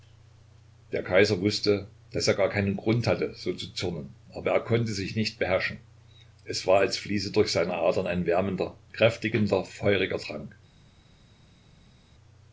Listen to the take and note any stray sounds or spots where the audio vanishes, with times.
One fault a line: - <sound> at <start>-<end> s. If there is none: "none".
none